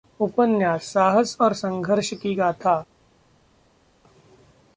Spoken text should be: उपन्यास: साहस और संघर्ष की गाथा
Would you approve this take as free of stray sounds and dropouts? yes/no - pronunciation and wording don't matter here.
yes